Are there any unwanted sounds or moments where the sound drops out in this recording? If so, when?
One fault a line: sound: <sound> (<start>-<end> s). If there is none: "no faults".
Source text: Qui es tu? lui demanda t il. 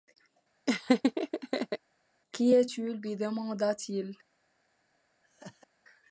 sound: laugh (0.7-1.8 s)
sound: laugh (5.2-5.7 s)